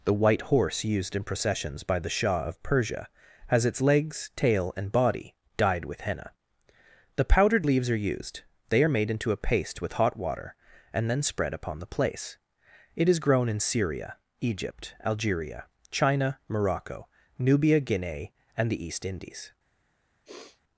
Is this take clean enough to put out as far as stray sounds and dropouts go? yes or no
no